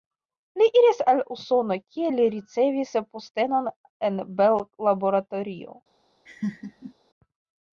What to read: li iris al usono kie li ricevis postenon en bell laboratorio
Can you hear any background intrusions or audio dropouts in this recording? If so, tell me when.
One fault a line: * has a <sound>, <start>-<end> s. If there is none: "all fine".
* has a laugh, 6.3-6.9 s